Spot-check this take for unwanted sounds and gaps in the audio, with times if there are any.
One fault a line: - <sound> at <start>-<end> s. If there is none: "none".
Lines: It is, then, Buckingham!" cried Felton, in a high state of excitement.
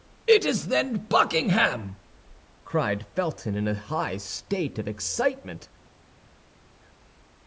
none